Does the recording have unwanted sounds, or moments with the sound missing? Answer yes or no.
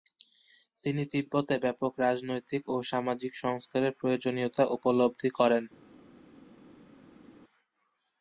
no